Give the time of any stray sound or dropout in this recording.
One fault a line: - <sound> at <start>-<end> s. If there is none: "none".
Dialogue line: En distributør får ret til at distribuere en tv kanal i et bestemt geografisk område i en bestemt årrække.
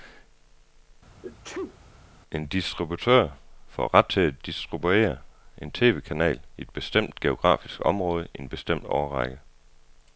- sneeze at 1.2-1.8 s